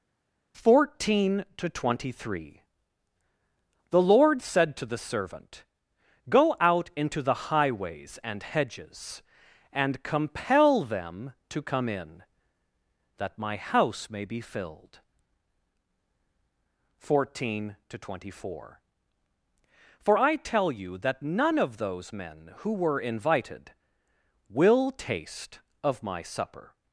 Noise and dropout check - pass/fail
pass